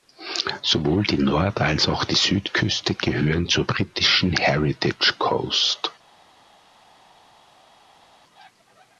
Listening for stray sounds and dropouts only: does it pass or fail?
pass